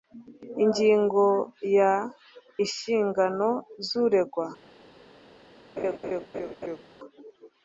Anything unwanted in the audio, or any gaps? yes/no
yes